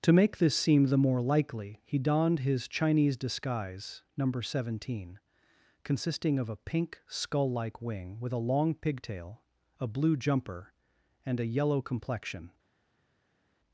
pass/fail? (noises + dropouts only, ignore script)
pass